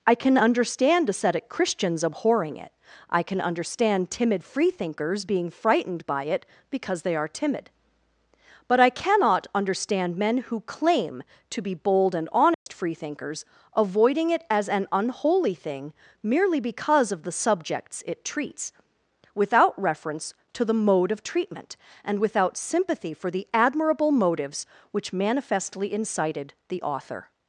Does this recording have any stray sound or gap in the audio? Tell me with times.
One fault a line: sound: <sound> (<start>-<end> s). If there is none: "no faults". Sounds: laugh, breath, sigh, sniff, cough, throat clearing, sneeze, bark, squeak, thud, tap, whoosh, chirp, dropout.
sound: dropout (12.5-12.7 s)